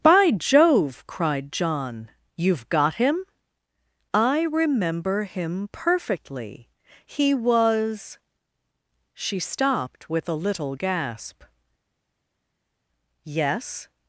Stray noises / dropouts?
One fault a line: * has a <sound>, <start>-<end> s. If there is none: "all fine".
all fine